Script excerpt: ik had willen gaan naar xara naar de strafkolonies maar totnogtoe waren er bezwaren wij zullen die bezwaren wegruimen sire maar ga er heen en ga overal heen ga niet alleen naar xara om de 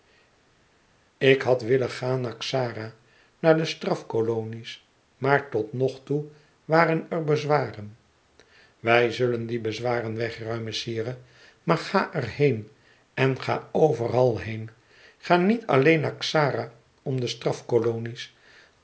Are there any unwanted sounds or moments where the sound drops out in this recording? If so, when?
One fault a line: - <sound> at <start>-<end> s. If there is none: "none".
none